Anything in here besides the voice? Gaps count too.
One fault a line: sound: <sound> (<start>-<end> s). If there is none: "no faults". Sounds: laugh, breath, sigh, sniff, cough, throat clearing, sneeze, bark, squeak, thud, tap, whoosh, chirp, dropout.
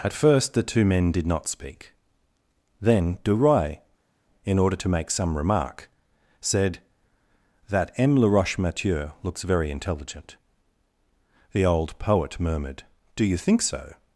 no faults